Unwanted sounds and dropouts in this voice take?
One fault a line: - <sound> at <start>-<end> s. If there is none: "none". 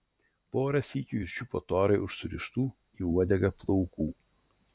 none